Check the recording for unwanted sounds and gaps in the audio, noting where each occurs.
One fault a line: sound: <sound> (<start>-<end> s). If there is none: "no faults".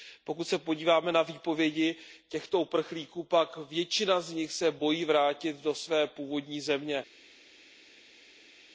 no faults